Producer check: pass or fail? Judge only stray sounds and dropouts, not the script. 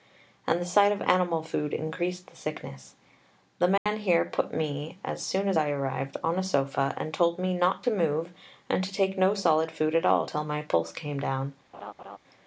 fail